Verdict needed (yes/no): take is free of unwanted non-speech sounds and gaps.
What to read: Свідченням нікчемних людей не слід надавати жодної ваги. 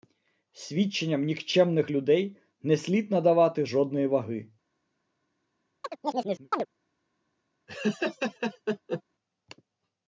no